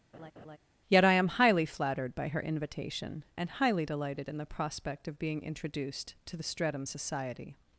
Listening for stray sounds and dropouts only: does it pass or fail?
fail